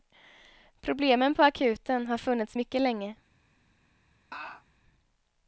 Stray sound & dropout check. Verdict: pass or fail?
fail